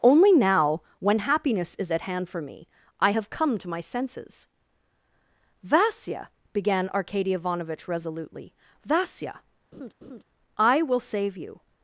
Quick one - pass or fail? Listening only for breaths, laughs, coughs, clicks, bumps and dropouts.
fail